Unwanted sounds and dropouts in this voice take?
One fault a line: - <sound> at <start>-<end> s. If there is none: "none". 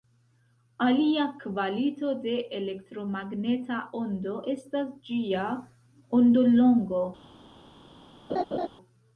- laugh at 8.3-8.7 s